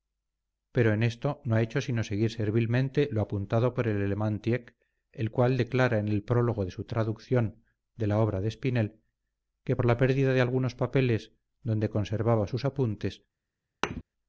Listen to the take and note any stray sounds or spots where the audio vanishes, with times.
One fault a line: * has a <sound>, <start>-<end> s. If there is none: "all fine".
* has a thud, 13.8-14.0 s